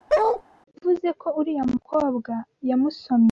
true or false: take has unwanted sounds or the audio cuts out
true